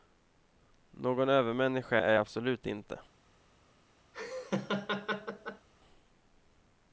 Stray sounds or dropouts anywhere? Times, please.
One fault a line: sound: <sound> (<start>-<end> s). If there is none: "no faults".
sound: laugh (4.1-5.7 s)